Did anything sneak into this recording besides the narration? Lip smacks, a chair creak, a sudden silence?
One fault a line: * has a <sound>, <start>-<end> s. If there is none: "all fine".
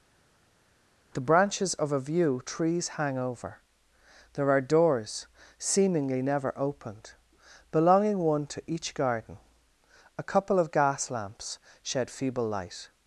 all fine